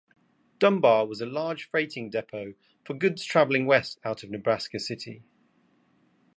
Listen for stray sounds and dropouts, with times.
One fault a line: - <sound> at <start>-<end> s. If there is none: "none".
none